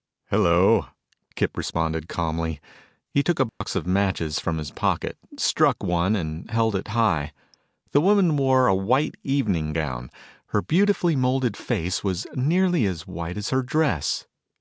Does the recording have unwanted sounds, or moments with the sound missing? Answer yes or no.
yes